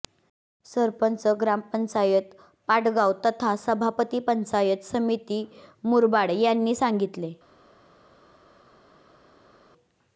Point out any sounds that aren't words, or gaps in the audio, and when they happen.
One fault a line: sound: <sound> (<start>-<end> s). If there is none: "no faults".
no faults